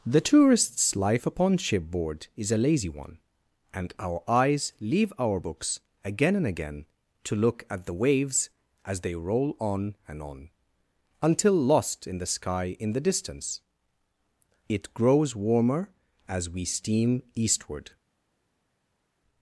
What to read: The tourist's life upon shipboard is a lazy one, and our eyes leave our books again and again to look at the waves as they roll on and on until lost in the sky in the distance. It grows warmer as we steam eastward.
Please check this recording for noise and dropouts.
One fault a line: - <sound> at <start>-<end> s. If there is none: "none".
none